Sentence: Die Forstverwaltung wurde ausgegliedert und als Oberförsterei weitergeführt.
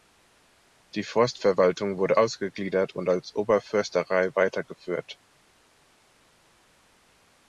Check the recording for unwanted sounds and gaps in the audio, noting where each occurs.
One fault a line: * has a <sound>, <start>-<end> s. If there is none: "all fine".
all fine